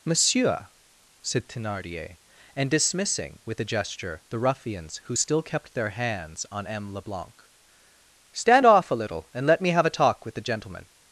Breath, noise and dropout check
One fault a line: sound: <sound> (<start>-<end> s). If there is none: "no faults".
no faults